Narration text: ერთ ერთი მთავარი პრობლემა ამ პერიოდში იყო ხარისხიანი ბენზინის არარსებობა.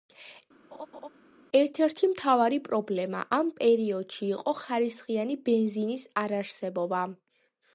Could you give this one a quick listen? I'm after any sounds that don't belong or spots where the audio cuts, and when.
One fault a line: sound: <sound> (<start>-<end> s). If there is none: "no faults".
sound: laugh (0.7-1.1 s)